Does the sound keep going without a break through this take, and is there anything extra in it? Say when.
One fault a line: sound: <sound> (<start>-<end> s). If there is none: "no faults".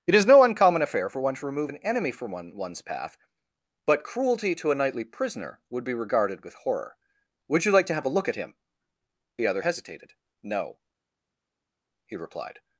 no faults